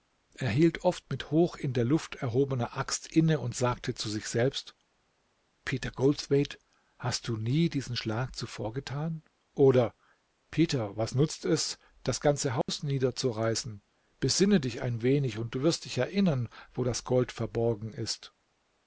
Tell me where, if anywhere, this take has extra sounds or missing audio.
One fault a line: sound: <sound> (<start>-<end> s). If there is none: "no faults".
sound: dropout (12.6-12.7 s)